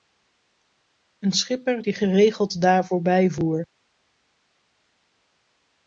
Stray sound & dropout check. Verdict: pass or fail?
pass